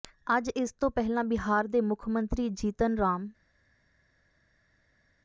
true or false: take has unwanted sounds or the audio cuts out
false